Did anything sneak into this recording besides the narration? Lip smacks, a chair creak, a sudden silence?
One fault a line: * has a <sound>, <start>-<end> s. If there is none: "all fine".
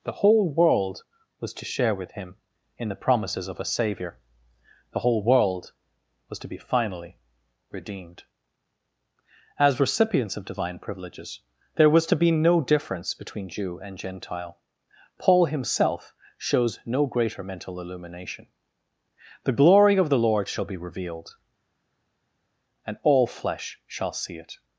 all fine